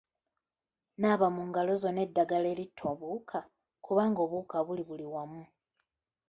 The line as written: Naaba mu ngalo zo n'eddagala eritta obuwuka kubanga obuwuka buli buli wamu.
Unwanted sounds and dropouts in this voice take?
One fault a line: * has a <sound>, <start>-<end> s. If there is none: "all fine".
all fine